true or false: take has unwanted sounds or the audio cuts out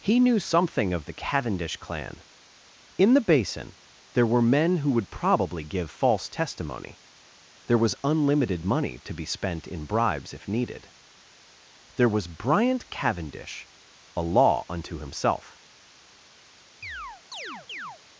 true